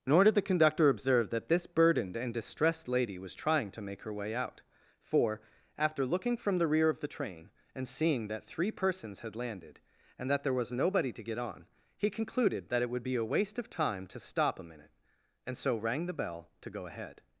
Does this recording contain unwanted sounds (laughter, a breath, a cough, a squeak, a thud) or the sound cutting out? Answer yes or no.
no